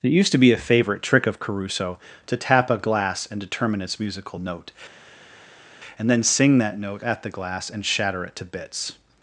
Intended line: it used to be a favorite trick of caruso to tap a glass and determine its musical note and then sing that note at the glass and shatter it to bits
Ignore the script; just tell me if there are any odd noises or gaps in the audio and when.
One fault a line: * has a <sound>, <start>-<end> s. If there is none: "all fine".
all fine